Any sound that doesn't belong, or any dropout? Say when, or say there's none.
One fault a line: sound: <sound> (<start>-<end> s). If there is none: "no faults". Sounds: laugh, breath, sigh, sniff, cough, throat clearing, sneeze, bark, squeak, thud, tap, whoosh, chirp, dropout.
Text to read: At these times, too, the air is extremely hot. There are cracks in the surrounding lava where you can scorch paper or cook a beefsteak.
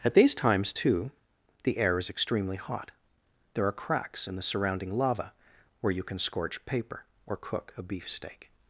no faults